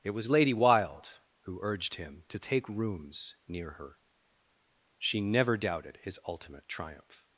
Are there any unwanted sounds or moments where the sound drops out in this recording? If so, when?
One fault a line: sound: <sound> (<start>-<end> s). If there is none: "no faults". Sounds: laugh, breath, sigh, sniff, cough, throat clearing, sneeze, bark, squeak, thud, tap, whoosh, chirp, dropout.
no faults